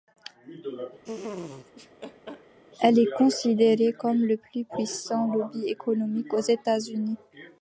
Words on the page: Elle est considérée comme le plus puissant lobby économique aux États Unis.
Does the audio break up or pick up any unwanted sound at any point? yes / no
yes